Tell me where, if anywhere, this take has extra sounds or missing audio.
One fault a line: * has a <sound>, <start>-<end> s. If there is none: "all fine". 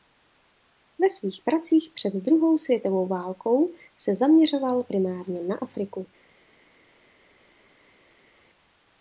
all fine